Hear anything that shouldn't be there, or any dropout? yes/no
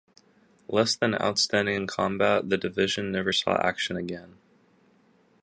no